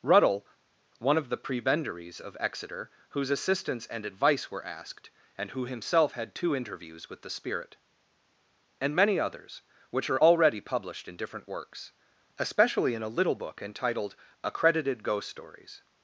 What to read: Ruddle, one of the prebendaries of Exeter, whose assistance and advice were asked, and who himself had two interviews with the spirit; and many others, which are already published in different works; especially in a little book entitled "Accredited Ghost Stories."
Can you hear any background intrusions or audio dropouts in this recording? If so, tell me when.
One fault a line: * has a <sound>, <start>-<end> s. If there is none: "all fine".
all fine